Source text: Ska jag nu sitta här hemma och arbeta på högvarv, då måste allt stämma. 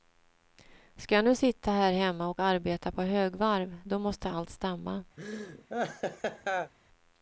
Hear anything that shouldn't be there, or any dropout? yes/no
yes